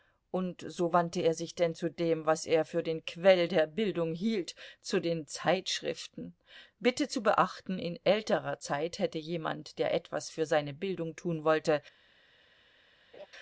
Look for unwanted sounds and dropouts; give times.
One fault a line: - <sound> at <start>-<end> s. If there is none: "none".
- laugh at 13.1-13.3 s